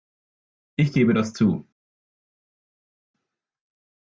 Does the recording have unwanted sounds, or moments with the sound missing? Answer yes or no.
no